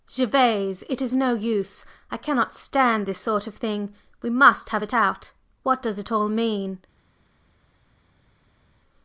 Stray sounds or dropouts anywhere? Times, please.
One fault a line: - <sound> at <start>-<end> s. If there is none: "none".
none